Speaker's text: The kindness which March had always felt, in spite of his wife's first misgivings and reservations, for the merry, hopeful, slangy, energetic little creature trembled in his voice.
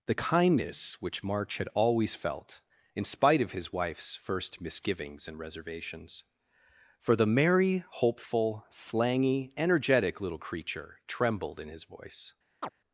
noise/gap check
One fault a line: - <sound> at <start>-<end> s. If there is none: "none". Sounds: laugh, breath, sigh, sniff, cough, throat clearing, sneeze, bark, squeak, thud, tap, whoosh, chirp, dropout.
- chirp at 12.6-12.7 s